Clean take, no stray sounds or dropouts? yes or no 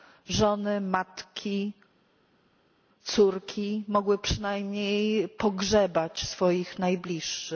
yes